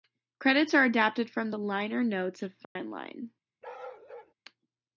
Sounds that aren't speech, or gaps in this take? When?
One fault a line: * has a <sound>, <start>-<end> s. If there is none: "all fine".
* has a dropout, 2.6-2.8 s
* has a bark, 3.6-4.3 s